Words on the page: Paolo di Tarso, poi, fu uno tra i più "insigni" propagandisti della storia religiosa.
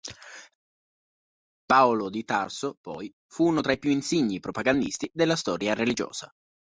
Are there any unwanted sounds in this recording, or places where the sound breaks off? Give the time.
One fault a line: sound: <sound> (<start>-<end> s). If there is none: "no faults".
no faults